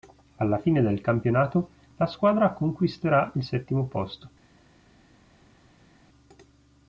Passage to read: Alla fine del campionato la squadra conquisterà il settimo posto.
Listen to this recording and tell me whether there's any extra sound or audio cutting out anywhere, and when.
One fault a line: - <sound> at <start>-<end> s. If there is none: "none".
none